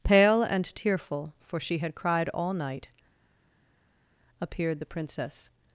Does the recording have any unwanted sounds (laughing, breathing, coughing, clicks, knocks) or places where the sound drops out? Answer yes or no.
no